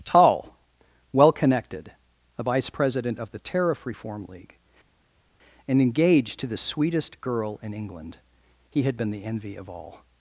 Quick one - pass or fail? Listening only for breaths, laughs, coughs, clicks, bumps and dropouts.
pass